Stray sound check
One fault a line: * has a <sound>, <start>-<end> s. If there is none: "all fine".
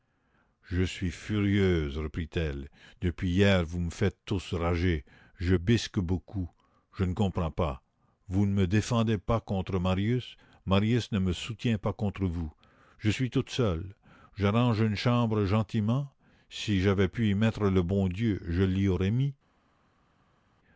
all fine